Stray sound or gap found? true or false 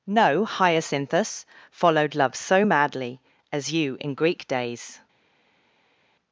false